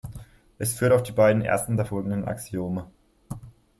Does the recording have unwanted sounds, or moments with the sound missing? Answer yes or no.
no